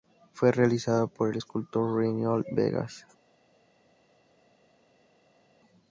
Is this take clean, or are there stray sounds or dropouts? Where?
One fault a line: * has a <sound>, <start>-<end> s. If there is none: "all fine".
all fine